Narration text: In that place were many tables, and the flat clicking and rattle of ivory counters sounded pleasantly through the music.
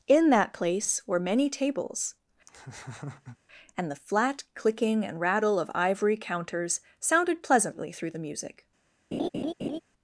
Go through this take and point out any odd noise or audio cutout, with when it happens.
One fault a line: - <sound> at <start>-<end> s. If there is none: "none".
- laugh at 2.5-3.4 s
- laugh at 9.1-9.8 s